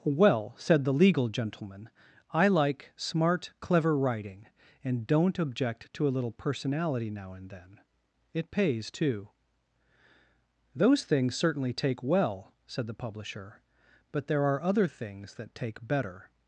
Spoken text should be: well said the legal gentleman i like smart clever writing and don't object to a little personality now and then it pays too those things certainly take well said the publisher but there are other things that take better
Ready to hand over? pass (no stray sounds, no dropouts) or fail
pass